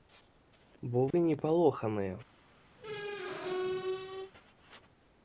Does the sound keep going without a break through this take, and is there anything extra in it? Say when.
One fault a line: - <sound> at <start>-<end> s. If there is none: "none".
- dropout at 1.1-1.1 s
- squeak at 2.8-4.3 s